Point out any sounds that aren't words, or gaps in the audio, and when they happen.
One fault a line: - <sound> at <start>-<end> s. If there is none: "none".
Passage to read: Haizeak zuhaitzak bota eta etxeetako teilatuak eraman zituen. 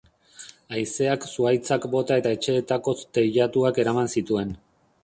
none